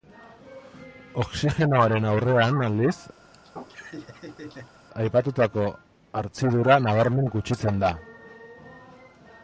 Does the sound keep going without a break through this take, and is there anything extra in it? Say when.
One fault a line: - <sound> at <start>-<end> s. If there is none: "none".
- laugh at 3.2-4.8 s